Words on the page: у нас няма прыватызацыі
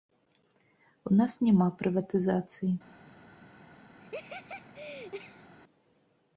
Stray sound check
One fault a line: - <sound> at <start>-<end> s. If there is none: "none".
- laugh at 4.0-5.5 s